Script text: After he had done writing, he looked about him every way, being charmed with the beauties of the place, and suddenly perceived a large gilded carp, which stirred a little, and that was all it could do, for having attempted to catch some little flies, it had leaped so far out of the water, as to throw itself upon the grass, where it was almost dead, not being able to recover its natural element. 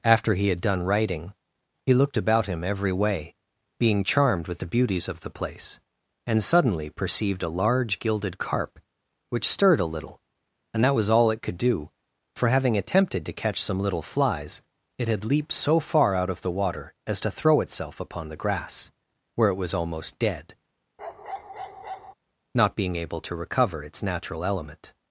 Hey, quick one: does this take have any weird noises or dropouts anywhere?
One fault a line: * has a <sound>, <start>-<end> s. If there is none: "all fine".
* has a bark, 21.0-22.1 s